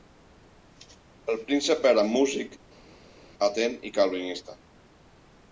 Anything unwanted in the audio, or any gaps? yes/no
no